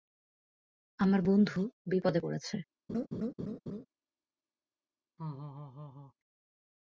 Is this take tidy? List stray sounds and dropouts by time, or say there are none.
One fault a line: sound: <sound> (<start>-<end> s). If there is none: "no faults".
sound: laugh (2.9-3.9 s)
sound: laugh (5.2-6.1 s)